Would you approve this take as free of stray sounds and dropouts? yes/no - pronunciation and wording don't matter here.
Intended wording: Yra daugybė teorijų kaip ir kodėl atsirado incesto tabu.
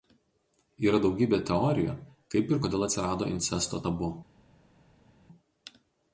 yes